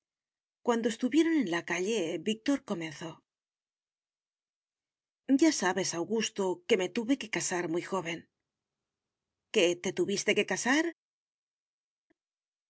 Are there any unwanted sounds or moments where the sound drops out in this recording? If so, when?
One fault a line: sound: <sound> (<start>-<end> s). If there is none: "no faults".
no faults